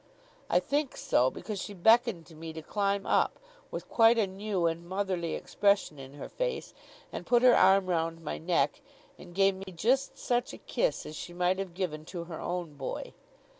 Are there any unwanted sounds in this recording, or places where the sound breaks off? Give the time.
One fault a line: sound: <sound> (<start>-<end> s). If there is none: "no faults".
sound: dropout (9.6-9.7 s)